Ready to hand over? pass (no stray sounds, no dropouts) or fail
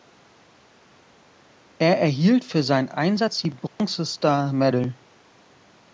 fail